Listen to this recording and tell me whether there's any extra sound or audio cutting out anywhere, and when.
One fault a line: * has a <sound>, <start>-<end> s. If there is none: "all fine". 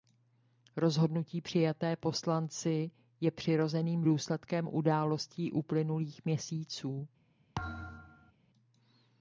* has a thud, 7.6-8.3 s